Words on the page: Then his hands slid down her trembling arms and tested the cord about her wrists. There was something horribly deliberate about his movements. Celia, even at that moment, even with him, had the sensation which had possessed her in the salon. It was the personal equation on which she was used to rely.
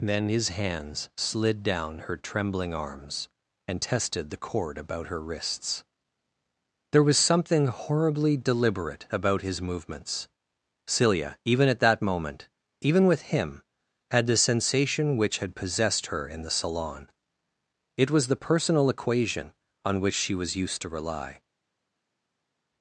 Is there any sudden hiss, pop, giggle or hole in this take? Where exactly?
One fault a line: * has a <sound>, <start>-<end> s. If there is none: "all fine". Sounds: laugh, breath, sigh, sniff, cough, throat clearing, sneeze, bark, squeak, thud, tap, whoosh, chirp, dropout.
all fine